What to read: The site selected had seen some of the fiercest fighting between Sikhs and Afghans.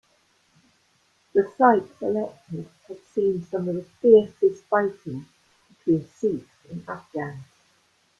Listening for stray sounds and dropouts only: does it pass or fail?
pass